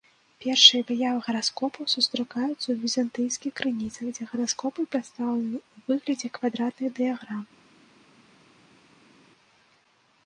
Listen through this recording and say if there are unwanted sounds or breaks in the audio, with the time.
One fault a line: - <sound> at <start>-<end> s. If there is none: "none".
none